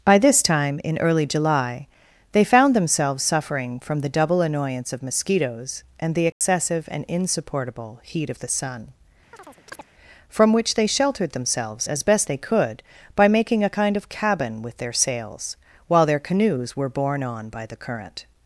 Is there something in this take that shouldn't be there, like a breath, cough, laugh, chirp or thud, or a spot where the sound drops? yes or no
yes